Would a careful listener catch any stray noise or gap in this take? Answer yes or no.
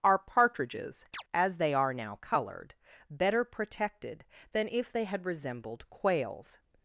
yes